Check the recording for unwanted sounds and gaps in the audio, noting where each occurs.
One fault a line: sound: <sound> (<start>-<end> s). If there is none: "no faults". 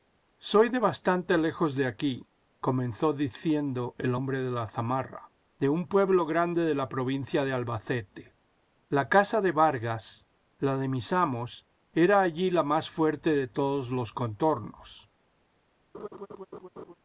sound: laugh (15.9-16.9 s)